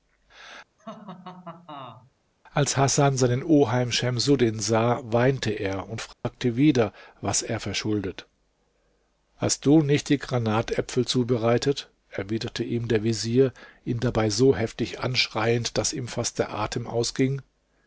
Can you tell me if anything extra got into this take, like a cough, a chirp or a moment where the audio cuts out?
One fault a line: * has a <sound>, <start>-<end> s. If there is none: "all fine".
* has a laugh, 0.8-2.1 s
* has a dropout, 6.1-6.2 s